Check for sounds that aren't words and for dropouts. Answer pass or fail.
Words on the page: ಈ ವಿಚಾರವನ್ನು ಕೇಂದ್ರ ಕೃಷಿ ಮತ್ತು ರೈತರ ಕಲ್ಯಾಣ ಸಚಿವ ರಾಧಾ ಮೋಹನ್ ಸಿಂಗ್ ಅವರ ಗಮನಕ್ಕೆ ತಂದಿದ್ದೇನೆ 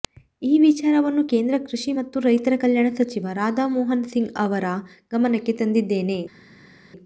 pass